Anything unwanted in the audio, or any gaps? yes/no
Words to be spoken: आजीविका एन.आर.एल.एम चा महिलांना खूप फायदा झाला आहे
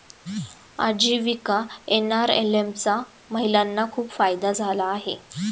no